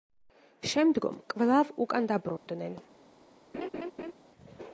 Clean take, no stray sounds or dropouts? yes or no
no